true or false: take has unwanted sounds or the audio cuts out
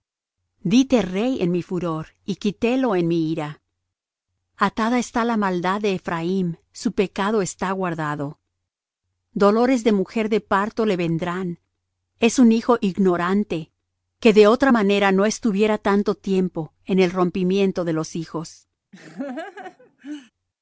true